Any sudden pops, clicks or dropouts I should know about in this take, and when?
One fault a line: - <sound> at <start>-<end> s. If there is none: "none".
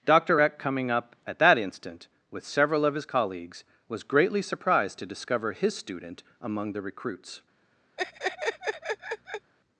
- laugh at 8.0-9.5 s